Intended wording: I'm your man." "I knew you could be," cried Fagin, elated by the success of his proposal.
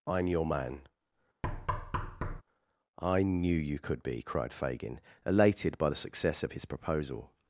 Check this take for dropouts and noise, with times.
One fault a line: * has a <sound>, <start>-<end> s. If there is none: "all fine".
* has a thud, 1.4-2.4 s